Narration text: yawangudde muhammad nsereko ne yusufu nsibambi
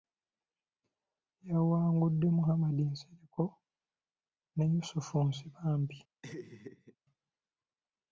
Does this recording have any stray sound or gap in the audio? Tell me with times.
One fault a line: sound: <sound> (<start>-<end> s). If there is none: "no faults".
sound: laugh (6.2-7.0 s)